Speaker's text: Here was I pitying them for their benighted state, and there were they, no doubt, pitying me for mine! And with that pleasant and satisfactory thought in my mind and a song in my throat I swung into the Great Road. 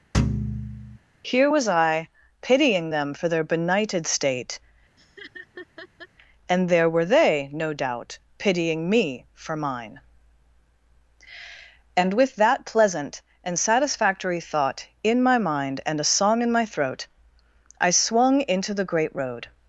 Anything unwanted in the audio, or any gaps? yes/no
yes